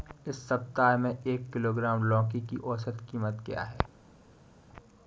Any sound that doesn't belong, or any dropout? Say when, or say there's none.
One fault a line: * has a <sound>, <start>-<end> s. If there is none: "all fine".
all fine